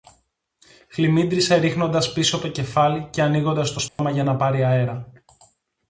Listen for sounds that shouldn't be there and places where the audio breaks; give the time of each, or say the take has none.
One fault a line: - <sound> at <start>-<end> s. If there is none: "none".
- dropout at 3.9-4.0 s